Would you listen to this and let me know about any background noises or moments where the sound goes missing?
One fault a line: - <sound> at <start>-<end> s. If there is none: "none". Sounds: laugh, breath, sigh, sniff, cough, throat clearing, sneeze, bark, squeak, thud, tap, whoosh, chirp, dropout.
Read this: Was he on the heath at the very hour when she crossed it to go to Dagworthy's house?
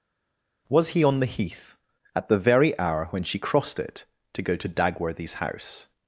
none